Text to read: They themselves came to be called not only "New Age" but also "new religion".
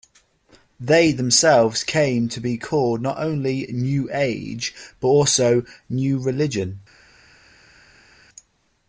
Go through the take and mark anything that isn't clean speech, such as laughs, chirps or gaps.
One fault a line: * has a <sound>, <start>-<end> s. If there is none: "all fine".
all fine